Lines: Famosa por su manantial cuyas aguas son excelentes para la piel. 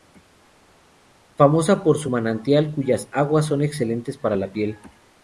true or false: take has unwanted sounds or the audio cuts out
false